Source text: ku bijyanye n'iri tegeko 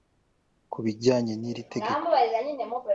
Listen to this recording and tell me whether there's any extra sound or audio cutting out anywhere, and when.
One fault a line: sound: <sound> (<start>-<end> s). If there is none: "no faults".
no faults